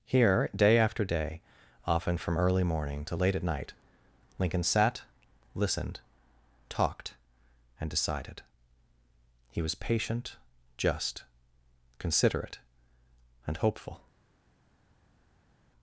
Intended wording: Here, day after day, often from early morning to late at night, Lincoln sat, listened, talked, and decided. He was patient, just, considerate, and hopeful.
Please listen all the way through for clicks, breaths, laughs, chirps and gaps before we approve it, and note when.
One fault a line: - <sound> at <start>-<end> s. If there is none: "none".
none